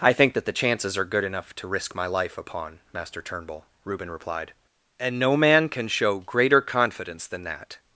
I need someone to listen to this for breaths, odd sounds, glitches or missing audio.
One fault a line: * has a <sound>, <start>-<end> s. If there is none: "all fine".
all fine